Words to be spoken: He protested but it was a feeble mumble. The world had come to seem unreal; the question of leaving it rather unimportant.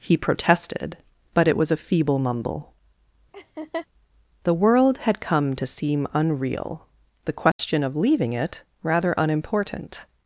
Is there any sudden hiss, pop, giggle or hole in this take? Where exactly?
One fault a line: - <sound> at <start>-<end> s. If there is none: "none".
- laugh at 3.3-3.9 s
- dropout at 7.5-7.6 s